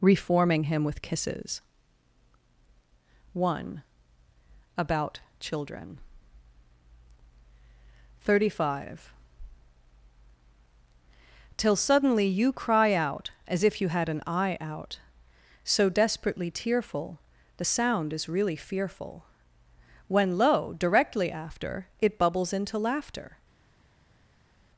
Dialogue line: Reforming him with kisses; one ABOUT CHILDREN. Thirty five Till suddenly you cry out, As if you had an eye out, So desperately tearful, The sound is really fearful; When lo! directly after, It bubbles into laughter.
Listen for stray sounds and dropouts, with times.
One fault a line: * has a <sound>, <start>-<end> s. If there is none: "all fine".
all fine